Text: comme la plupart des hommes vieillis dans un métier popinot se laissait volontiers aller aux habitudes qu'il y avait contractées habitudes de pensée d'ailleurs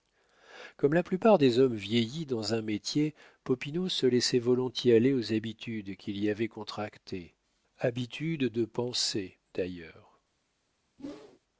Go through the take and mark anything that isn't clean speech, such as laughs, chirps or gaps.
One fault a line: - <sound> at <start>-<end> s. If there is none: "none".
- whoosh at 11.0-11.4 s